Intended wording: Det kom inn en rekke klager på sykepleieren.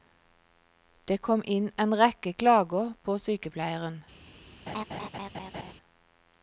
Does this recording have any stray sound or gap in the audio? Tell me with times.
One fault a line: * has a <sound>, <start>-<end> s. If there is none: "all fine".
* has a laugh, 4.7-5.7 s